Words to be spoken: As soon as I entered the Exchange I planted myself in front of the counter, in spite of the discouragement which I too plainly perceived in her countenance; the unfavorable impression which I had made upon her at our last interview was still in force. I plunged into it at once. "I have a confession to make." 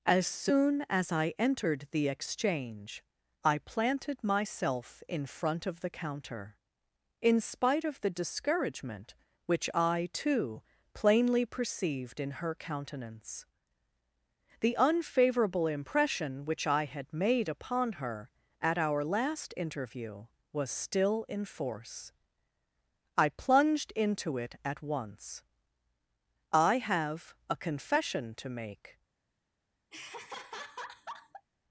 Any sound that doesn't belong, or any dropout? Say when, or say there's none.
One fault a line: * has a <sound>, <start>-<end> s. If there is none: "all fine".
* has a laugh, 29.9-31.5 s